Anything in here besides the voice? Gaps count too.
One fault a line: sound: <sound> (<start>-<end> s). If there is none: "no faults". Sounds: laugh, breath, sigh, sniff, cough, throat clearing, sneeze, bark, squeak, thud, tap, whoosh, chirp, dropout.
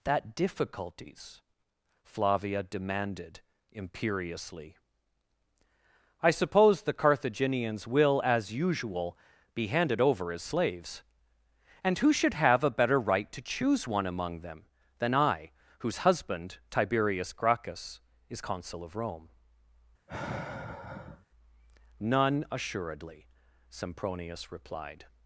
sound: sigh (20.1-21.3 s)